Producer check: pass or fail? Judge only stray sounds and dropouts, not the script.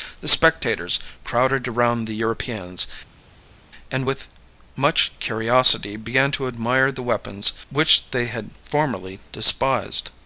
pass